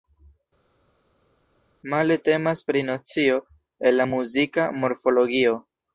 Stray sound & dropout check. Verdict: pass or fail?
pass